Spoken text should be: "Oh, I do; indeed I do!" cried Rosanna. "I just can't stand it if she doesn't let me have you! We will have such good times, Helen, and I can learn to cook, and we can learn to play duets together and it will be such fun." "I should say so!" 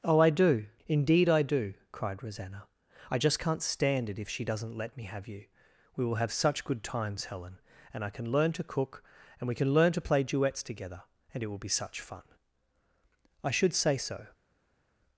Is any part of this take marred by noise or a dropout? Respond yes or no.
no